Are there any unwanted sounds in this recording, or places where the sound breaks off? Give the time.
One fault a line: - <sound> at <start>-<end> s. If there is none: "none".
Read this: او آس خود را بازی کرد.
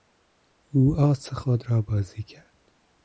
none